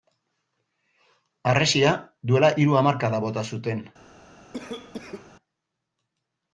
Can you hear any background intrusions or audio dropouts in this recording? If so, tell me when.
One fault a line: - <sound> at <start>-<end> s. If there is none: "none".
- cough at 4.5-5.3 s